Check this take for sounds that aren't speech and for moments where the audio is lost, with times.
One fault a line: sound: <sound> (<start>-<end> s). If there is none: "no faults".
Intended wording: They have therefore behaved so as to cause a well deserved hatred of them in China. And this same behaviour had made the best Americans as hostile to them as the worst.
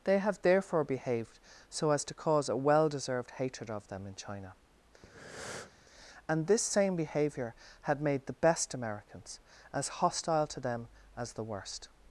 sound: breath (5.0-5.7 s)